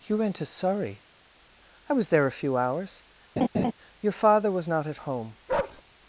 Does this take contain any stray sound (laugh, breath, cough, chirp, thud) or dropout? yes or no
yes